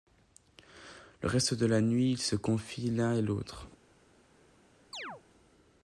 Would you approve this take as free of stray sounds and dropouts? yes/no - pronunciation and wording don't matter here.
no